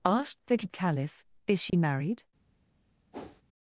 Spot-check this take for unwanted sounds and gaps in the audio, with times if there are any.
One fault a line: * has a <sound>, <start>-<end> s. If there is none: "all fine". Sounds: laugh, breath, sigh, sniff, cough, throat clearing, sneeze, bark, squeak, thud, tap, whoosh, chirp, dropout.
* has a dropout, 1.7-1.7 s
* has a whoosh, 3.1-3.4 s